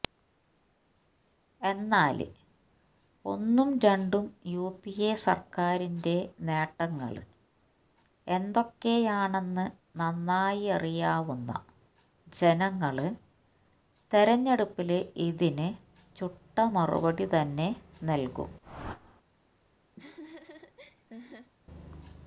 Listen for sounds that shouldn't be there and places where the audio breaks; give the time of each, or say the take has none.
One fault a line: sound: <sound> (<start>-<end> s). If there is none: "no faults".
sound: whoosh (18.6-19.2 s)
sound: laugh (20.0-21.5 s)